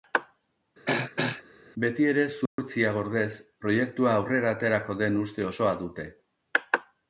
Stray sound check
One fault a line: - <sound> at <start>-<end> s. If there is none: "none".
- throat clearing at 0.9-1.4 s
- dropout at 2.5-2.6 s